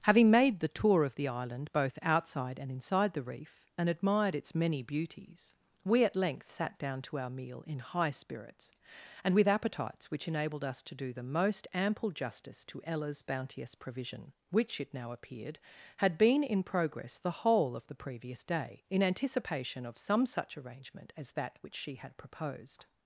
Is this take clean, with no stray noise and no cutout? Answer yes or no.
yes